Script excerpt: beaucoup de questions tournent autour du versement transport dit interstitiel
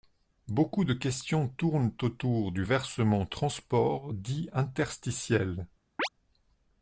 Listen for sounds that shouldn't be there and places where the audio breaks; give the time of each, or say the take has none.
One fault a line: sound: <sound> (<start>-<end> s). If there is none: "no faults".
sound: chirp (6.0-6.1 s)